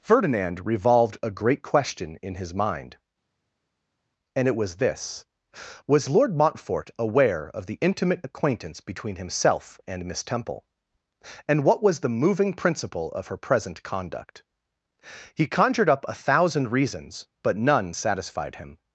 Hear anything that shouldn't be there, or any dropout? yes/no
no